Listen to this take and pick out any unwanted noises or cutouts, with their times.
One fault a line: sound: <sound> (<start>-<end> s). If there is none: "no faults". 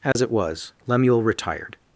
sound: dropout (0.1-0.2 s)